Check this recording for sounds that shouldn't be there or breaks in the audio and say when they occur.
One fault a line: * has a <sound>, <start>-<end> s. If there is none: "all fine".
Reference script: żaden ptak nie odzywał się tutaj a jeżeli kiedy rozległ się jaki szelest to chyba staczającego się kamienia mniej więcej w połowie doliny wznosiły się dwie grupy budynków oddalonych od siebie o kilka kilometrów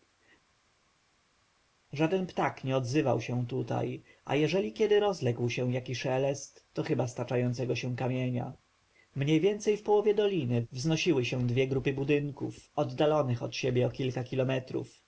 all fine